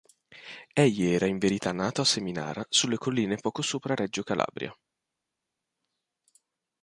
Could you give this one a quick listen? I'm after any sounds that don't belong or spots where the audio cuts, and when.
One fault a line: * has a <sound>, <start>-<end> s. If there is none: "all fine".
all fine